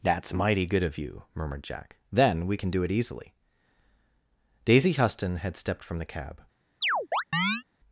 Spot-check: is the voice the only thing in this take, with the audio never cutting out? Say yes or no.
no